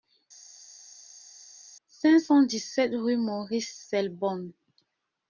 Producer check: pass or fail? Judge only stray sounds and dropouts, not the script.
pass